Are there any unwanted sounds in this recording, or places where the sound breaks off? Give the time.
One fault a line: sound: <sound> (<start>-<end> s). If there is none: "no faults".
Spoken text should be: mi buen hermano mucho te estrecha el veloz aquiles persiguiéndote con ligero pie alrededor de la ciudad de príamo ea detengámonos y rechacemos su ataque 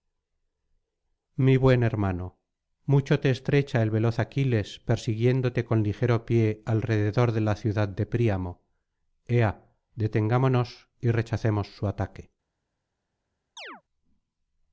sound: chirp (13.6-13.8 s)